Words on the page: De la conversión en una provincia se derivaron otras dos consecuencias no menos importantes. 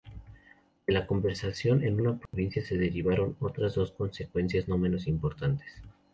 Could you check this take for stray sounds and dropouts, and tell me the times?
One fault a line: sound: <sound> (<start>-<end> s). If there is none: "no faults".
sound: dropout (2.3-2.3 s)